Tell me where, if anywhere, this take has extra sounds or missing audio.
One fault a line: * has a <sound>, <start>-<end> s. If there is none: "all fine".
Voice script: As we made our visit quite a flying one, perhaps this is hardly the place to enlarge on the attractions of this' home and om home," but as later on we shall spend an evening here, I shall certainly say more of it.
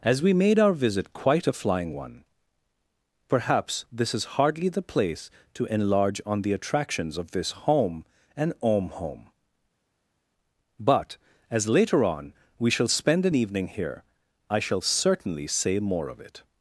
all fine